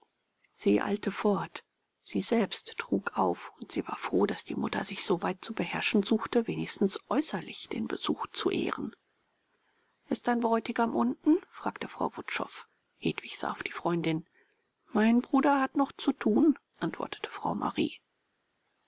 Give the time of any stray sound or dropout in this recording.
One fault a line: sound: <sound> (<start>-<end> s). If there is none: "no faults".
no faults